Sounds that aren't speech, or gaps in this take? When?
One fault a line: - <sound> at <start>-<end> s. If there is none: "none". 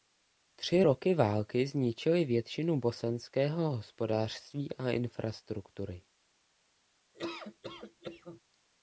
- laugh at 7.1-8.4 s